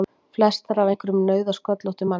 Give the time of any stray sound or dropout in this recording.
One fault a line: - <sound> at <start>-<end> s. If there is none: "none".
none